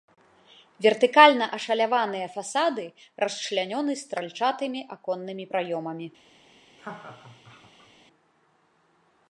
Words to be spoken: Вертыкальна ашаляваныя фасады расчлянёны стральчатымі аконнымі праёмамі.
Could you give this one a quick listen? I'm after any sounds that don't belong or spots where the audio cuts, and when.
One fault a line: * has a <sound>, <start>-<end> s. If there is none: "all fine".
* has a laugh, 6.8-7.9 s